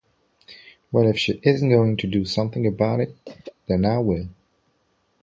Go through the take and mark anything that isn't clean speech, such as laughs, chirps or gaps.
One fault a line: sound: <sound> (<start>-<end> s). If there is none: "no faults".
sound: throat clearing (3.3-3.6 s)